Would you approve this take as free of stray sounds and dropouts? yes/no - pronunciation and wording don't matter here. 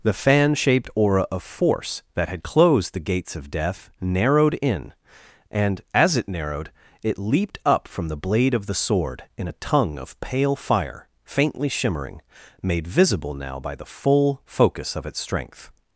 yes